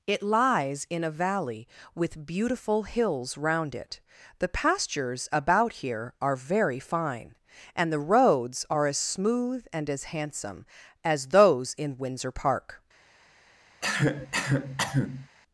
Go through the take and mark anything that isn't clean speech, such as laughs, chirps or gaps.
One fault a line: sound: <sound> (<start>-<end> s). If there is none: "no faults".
sound: cough (13.8-15.3 s)